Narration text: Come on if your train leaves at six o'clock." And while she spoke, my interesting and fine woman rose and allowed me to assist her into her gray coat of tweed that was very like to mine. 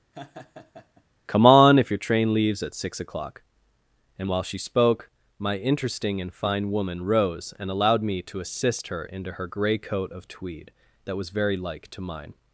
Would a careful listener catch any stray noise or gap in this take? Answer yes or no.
yes